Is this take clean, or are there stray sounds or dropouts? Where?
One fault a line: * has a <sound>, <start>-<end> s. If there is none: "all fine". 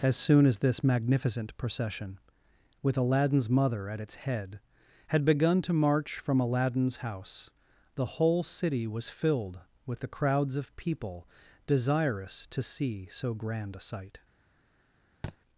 * has a thud, 15.2-15.4 s